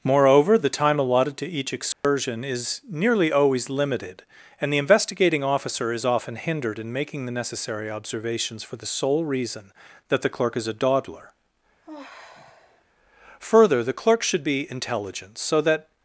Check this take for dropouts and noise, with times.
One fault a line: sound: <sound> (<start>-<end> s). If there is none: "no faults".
sound: dropout (1.9-2.0 s)
sound: sigh (11.8-12.8 s)